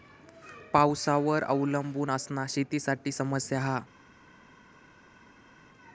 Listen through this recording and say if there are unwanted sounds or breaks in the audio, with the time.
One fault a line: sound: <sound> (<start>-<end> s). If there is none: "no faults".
no faults